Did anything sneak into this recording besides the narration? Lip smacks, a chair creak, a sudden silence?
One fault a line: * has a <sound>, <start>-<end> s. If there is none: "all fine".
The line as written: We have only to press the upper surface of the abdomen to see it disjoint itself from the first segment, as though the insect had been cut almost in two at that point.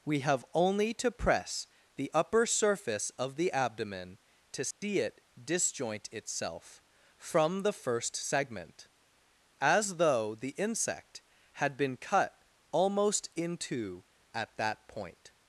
* has a dropout, 4.7-4.8 s